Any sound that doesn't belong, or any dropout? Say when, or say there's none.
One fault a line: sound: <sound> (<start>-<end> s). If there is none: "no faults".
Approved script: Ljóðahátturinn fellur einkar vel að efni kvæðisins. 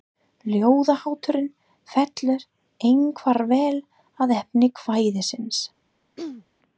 sound: throat clearing (6.2-6.5 s)